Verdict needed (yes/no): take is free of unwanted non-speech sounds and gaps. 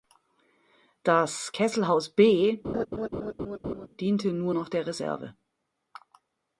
no